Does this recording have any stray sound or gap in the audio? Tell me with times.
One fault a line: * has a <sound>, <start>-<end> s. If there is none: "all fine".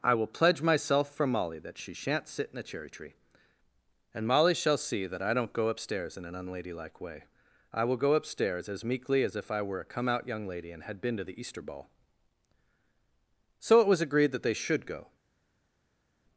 all fine